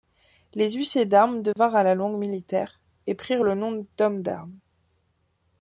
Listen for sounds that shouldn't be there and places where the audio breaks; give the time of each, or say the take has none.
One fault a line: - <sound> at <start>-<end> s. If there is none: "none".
- dropout at 1.5-1.6 s